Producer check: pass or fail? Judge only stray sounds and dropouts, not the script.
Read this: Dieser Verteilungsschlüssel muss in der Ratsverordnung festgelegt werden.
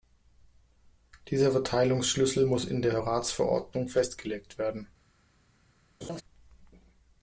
fail